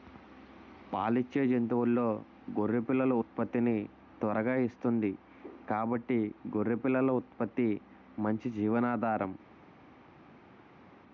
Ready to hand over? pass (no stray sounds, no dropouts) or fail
pass